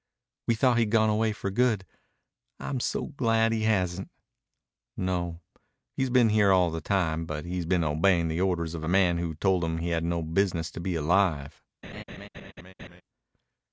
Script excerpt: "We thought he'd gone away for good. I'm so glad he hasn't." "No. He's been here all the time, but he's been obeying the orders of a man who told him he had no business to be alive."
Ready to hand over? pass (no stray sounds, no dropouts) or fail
fail